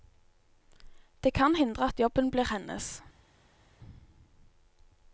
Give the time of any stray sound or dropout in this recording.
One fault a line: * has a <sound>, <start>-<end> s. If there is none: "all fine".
all fine